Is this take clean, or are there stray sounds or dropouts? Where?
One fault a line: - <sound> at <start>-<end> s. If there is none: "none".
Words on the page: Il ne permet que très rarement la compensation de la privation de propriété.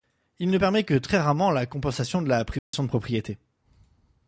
- dropout at 2.6-2.7 s